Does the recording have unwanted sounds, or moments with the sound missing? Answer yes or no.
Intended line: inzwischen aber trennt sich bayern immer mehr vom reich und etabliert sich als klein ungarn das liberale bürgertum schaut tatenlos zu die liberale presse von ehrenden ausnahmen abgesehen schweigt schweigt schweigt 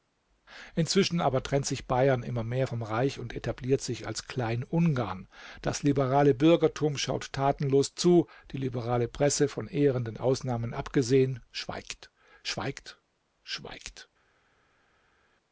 no